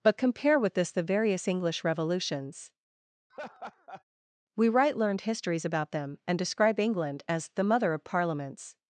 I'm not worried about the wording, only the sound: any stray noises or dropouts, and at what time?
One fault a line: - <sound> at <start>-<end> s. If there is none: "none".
- laugh at 3.3-4.0 s